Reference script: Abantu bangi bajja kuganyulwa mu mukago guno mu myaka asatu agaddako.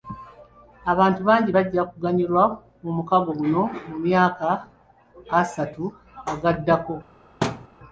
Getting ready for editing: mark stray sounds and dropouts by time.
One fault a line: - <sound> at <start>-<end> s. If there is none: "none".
- thud at 7.4-7.7 s